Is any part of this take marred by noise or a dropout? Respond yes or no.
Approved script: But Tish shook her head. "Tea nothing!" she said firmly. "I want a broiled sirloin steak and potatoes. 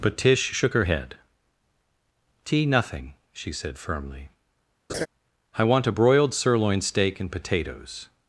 yes